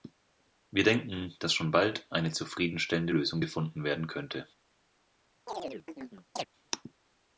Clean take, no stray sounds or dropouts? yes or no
no